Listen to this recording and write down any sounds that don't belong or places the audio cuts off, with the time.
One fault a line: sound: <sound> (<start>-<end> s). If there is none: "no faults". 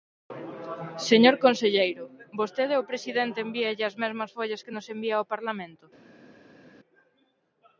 no faults